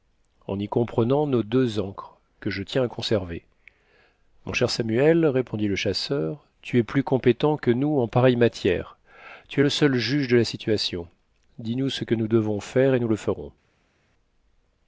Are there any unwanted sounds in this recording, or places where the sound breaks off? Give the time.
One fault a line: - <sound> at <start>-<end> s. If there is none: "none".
none